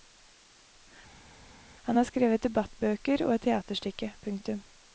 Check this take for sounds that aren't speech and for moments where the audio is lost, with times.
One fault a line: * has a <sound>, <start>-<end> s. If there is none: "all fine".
all fine